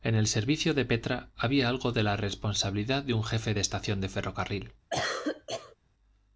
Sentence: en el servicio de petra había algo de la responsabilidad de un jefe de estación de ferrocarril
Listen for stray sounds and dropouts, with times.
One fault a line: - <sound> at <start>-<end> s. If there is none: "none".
- cough at 4.9-5.8 s